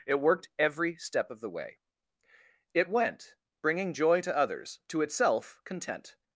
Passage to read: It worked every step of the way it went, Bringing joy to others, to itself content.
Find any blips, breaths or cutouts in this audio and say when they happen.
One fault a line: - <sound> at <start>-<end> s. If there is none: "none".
none